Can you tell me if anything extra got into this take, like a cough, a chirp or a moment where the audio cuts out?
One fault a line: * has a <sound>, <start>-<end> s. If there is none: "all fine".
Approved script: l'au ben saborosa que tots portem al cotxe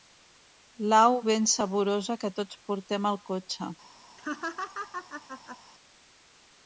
* has a laugh, 4.2-5.6 s